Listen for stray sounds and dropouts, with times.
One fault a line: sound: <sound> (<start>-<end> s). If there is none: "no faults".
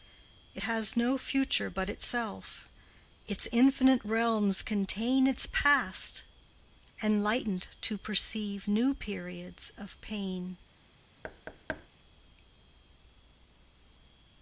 sound: thud (11.2-11.9 s)